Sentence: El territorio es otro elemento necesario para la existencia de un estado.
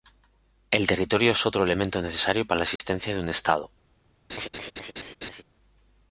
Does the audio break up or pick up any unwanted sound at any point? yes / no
yes